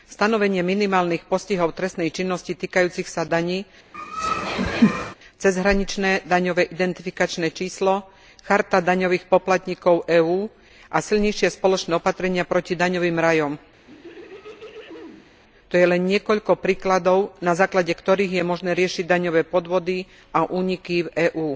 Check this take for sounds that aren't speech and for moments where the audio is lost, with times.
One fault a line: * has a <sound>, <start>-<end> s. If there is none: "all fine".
* has a laugh, 3.9-5.2 s
* has a throat clearing, 13.9-15.4 s